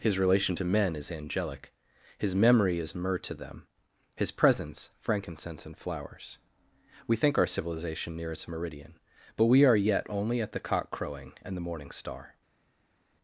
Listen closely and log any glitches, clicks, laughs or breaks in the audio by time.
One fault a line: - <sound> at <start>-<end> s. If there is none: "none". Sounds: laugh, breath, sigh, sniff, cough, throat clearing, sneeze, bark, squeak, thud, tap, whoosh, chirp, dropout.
none